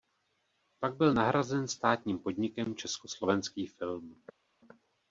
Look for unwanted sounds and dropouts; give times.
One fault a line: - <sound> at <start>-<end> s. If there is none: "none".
none